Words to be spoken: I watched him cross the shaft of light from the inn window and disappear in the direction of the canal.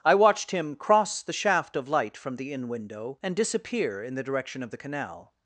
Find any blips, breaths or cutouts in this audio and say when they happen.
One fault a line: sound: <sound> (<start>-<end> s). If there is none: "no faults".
no faults